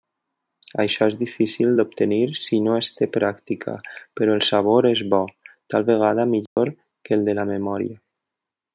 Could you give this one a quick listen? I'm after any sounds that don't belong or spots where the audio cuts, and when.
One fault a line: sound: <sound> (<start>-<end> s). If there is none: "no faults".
sound: dropout (6.5-6.6 s)